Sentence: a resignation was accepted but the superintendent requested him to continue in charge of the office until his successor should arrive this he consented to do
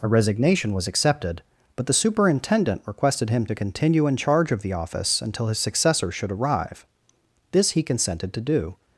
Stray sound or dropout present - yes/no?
no